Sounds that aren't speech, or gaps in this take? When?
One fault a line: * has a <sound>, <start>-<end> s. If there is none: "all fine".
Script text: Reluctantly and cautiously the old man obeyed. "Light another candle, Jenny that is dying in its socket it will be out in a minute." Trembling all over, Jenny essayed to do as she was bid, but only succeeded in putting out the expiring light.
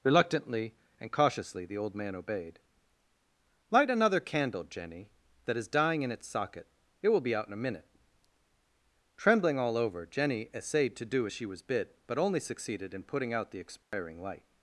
* has a dropout, 13.8-13.9 s